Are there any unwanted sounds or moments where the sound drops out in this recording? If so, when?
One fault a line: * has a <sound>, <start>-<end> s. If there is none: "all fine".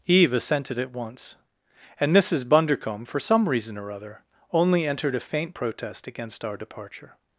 all fine